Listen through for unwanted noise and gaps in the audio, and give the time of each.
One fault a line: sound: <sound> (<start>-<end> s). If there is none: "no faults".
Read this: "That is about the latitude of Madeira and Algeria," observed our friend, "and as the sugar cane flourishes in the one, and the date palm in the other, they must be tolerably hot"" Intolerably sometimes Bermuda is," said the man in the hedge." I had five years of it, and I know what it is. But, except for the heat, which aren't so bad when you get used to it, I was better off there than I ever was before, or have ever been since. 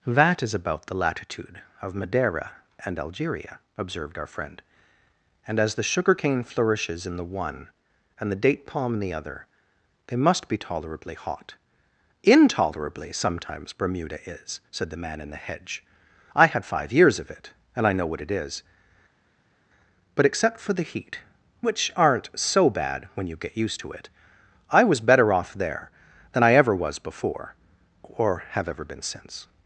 no faults